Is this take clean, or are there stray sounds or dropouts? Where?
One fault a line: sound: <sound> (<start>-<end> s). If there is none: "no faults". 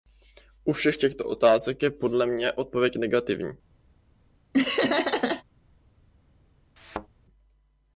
sound: laugh (4.5-5.4 s)
sound: thud (6.8-7.1 s)